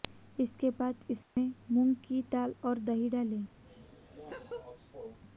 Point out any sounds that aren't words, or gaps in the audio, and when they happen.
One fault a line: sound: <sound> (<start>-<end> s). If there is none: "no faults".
sound: dropout (1.2-1.4 s)
sound: laugh (3.6-5.2 s)